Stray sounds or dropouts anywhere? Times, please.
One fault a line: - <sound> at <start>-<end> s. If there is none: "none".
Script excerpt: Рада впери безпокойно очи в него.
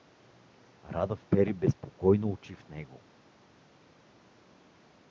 none